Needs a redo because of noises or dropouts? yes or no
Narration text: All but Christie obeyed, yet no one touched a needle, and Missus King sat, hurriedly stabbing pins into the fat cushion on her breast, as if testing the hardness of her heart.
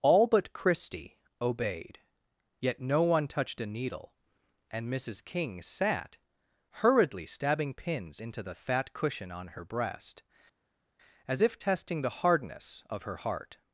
no